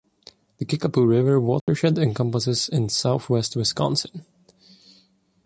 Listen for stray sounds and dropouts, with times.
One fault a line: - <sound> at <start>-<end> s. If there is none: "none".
- dropout at 1.6-1.7 s